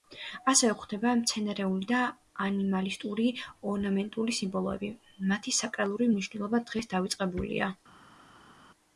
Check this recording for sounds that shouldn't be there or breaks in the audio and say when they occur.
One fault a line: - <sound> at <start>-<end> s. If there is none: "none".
none